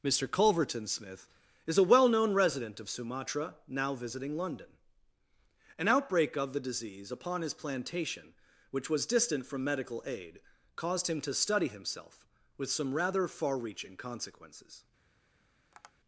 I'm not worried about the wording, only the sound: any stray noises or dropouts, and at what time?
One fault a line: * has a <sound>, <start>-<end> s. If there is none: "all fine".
* has a tap, 15.7-15.9 s